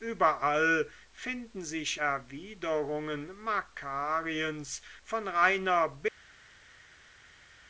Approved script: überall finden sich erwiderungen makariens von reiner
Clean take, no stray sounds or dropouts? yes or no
yes